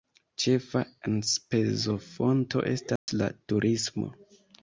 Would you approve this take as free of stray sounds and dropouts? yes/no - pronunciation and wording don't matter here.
no